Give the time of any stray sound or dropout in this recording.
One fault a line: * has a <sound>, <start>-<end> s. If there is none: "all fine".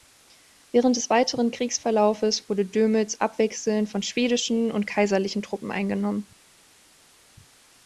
all fine